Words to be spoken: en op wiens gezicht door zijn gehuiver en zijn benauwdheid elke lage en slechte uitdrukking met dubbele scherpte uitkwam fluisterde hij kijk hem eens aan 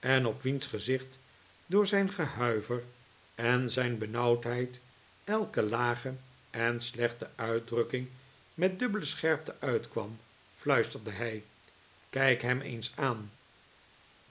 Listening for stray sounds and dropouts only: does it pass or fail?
pass